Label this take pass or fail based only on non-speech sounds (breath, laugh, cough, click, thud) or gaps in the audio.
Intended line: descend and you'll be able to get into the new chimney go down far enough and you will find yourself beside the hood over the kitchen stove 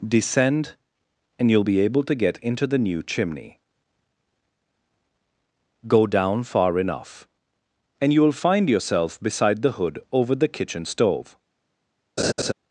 fail